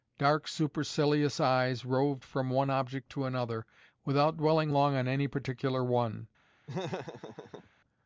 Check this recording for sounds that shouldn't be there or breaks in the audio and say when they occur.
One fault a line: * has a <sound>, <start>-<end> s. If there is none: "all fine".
* has a laugh, 6.7-7.7 s